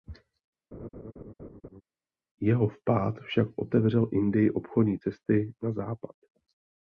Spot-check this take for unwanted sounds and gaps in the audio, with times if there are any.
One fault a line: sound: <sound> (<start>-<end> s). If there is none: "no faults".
sound: laugh (0.7-1.8 s)